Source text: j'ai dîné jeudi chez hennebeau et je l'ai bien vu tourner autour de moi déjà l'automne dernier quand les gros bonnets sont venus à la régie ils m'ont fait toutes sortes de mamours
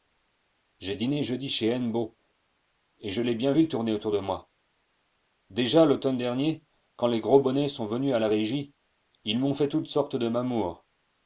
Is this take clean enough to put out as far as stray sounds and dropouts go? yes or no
yes